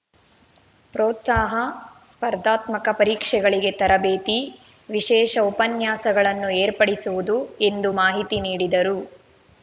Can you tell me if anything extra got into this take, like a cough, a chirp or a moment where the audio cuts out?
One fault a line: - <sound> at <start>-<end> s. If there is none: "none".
none